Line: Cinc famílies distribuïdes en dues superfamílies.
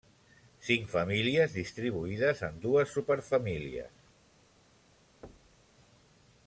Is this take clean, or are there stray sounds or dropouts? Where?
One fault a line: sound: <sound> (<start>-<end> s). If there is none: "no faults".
sound: thud (5.2-5.7 s)